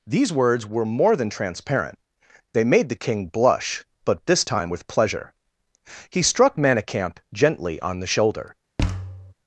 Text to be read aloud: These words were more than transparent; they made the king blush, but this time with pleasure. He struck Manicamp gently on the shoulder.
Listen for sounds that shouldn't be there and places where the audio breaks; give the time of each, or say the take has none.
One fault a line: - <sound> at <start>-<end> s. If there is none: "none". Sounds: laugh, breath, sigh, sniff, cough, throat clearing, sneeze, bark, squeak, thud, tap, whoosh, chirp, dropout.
- thud at 8.8-9.3 s